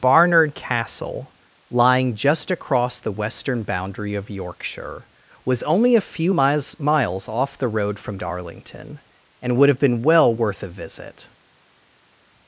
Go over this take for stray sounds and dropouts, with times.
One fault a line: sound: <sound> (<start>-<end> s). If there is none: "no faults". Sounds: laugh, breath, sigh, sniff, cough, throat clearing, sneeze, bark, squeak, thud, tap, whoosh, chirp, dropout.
no faults